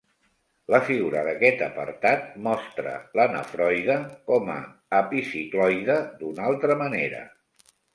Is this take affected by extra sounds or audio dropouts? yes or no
no